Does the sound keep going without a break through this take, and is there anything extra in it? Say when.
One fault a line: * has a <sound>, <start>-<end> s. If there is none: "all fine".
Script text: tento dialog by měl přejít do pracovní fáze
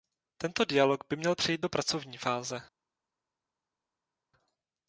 all fine